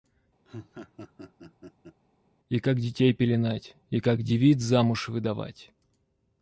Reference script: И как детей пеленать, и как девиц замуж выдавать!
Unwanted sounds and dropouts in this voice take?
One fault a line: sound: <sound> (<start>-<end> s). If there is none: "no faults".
sound: laugh (0.4-2.0 s)